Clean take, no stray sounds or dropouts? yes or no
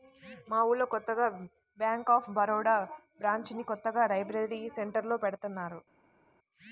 yes